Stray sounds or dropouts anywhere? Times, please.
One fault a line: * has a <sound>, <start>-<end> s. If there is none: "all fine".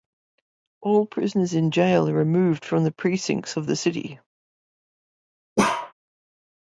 * has a bark, 5.6-5.9 s